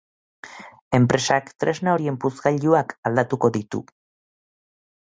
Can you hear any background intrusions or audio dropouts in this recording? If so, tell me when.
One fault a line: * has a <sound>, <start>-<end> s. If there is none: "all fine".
all fine